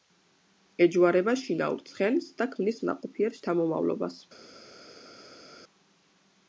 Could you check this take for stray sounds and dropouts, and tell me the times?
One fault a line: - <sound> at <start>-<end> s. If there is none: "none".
none